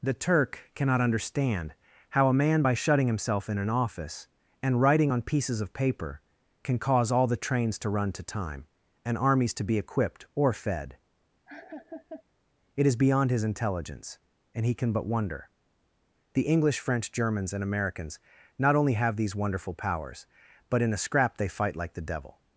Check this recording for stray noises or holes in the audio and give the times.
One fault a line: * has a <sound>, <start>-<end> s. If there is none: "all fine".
* has a laugh, 11.5-12.2 s